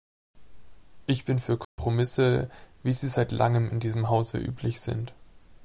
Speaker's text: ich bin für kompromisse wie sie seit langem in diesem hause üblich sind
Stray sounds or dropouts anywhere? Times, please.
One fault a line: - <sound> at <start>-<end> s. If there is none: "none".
- dropout at 1.6-1.8 s